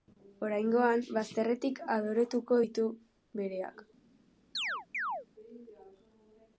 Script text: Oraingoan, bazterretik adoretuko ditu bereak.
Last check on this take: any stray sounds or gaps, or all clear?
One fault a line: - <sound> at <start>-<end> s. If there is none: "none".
- chirp at 4.5-5.3 s